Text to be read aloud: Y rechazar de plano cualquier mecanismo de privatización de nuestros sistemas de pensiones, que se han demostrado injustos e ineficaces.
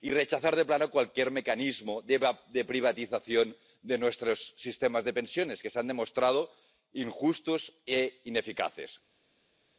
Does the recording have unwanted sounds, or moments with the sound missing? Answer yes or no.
no